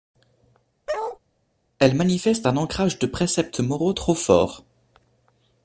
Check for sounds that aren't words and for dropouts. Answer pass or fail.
fail